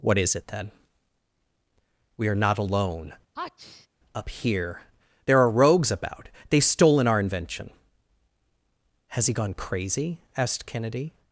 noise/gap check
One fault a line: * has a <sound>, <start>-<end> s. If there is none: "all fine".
* has a sneeze, 3.4-3.9 s